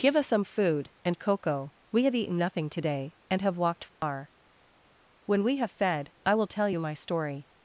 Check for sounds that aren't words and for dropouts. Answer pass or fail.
fail